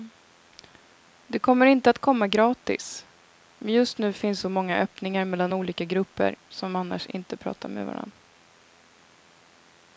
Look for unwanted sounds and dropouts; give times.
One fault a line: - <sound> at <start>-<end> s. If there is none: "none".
none